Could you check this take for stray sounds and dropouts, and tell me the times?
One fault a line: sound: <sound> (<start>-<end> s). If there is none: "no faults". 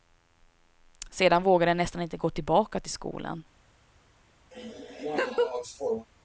sound: laugh (4.5-6.1 s)